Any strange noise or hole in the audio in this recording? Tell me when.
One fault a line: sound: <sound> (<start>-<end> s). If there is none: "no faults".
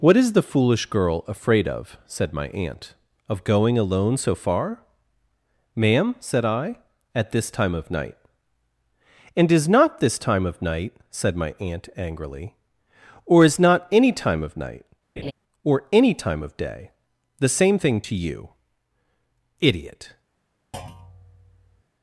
sound: laugh (15.2-15.3 s)
sound: thud (20.7-21.8 s)